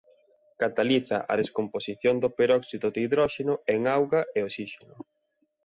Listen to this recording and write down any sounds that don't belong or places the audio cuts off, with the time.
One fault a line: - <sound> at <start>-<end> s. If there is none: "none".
none